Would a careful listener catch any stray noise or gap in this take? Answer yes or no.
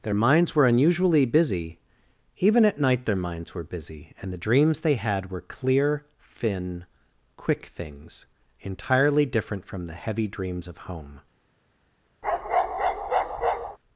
yes